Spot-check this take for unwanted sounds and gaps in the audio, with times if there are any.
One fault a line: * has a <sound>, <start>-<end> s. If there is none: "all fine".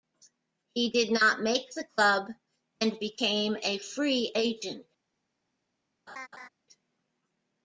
* has a laugh, 6.1-6.5 s